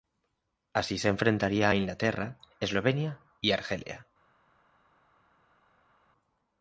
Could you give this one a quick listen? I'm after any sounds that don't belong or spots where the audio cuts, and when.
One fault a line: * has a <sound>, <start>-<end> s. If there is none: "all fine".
all fine